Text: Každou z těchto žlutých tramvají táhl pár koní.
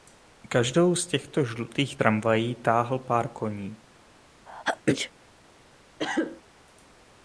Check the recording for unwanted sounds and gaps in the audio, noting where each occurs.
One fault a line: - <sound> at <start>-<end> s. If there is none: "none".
- sneeze at 4.5-5.1 s
- cough at 6.0-6.4 s